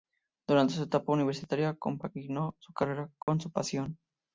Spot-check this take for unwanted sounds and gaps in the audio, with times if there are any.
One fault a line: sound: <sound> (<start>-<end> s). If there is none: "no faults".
sound: dropout (3.2-3.3 s)